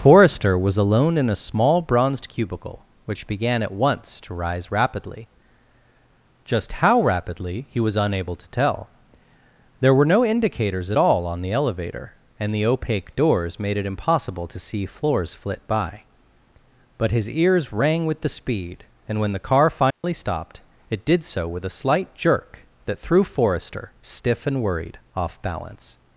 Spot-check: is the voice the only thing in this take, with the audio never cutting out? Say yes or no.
no